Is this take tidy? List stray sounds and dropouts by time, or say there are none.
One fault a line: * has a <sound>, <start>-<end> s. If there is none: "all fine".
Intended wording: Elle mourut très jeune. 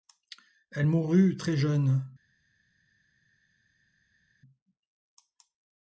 all fine